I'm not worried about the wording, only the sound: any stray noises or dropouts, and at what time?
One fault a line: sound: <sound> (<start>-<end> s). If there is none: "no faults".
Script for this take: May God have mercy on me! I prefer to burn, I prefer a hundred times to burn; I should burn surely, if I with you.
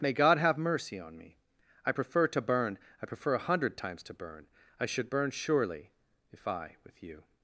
no faults